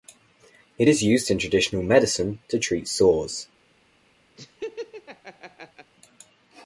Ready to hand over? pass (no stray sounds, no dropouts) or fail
fail